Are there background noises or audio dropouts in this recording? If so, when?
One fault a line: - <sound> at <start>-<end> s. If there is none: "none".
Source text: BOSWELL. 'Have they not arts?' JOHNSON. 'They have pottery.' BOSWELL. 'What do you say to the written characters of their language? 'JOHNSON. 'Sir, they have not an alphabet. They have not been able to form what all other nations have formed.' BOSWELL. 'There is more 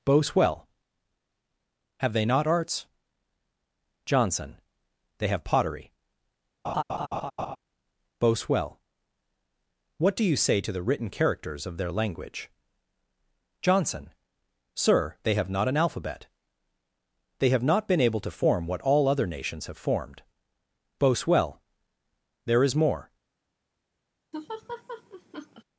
- laugh at 6.6-7.6 s
- laugh at 24.3-25.6 s